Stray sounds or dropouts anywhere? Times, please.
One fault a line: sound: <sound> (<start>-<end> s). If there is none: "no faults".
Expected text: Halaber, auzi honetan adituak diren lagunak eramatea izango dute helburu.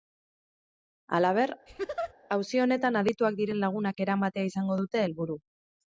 sound: laugh (1.7-2.1 s)